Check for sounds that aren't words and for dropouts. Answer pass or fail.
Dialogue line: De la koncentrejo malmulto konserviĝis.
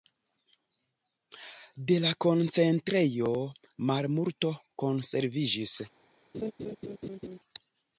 fail